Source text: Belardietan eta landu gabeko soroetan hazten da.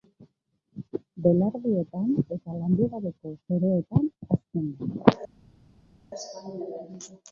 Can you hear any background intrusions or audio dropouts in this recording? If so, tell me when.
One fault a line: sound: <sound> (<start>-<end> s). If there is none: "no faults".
no faults